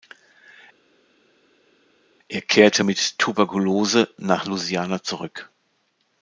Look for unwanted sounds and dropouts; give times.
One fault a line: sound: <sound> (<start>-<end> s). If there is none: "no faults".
no faults